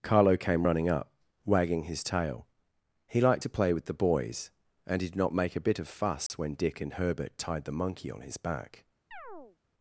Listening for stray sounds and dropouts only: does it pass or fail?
fail